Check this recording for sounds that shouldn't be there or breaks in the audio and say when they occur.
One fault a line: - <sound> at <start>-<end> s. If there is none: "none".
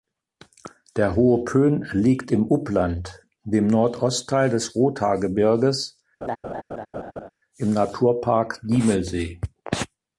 - laugh at 6.2-7.3 s